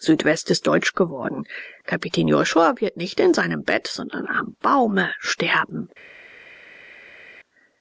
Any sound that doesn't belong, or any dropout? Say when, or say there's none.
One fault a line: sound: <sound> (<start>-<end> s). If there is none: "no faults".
no faults